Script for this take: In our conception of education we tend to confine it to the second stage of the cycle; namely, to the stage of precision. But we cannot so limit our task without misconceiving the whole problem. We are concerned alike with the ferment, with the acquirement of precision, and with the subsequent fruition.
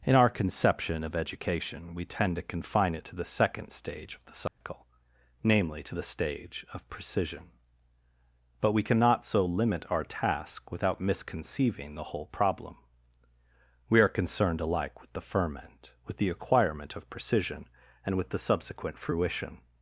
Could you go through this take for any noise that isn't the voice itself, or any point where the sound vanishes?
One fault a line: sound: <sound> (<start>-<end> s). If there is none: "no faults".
sound: dropout (4.5-4.6 s)